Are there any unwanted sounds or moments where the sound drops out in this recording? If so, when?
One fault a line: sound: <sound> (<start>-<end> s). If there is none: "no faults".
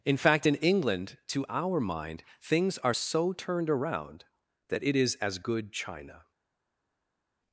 no faults